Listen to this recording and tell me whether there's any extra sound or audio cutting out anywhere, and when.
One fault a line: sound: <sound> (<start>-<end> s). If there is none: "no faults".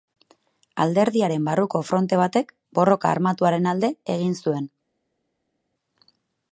no faults